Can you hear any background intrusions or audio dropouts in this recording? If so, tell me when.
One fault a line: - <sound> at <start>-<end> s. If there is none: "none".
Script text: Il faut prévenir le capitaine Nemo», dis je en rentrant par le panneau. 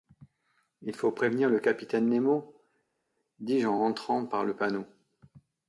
none